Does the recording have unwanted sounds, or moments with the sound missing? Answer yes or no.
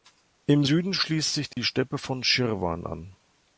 yes